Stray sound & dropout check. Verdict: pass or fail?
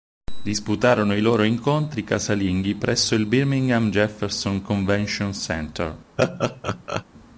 fail